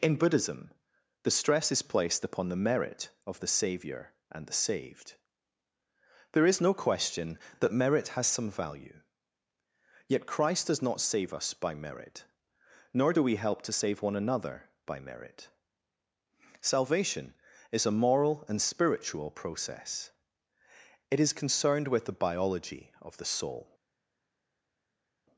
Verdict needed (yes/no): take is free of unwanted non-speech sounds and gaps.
yes